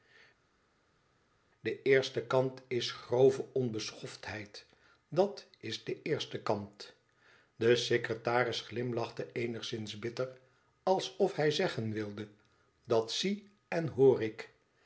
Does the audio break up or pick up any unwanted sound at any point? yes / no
no